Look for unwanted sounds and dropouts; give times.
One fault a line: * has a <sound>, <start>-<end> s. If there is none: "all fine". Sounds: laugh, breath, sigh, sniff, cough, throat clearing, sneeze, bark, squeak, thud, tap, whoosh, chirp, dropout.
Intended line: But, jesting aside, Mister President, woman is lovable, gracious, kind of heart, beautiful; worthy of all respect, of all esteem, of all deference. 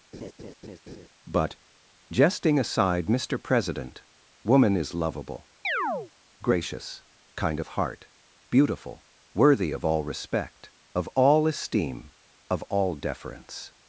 * has a laugh, 0.1-1.1 s
* has a chirp, 5.6-6.1 s